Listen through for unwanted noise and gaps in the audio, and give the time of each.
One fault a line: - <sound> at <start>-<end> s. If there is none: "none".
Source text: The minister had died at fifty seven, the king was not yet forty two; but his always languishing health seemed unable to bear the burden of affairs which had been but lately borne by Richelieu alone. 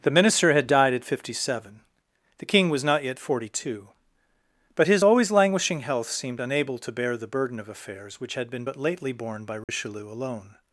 - dropout at 9.6-9.7 s